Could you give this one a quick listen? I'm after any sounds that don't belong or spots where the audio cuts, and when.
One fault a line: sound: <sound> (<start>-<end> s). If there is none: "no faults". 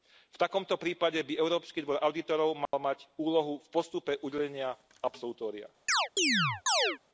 sound: dropout (2.7-2.7 s)
sound: chirp (5.9-7.0 s)